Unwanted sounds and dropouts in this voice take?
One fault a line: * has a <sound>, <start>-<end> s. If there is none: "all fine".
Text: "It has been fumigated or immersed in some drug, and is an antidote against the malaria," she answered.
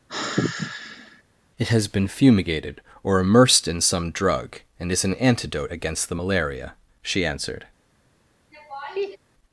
* has a sigh, 0.1-1.2 s
* has a laugh, 8.5-9.2 s